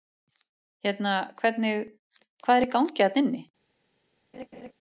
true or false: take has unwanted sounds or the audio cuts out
true